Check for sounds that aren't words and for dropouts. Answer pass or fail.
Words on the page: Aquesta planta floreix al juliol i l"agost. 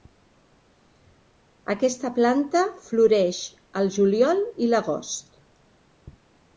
pass